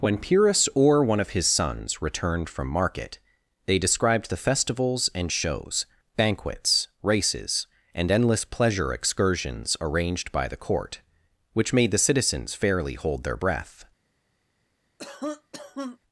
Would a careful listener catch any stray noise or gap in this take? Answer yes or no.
yes